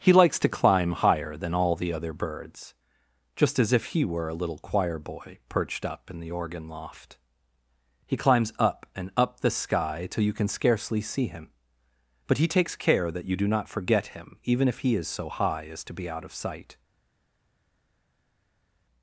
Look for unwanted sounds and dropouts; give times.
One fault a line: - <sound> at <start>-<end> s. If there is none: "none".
none